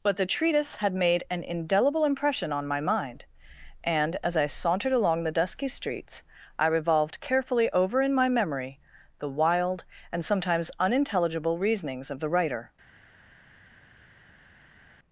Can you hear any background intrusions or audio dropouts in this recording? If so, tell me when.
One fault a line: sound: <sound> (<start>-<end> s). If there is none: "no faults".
no faults